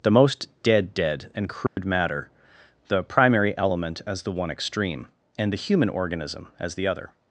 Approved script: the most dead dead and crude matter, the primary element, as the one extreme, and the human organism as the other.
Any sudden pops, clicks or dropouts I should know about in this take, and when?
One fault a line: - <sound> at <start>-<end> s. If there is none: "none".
- dropout at 1.7-1.8 s